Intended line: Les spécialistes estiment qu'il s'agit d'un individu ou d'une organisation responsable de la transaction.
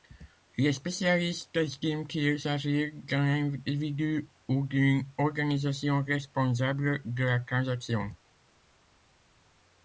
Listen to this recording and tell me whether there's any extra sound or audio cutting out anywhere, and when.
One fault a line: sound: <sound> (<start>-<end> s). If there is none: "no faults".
no faults